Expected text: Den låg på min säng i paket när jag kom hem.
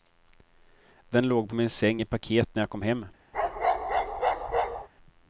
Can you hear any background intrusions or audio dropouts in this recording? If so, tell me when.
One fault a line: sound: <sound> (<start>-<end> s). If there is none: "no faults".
sound: bark (3.3-4.9 s)